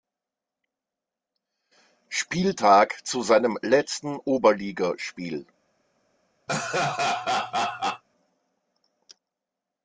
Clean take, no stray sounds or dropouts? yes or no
no